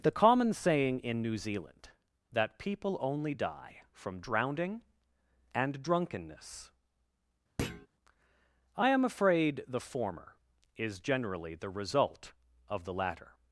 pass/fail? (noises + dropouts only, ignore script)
fail